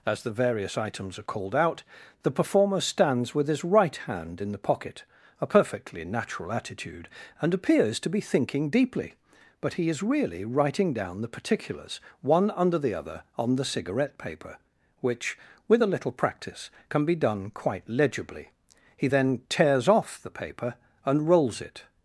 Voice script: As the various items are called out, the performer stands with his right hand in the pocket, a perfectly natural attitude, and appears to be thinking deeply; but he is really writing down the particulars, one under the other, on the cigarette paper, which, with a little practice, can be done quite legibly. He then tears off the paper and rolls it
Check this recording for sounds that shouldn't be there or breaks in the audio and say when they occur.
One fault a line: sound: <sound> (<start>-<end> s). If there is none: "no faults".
no faults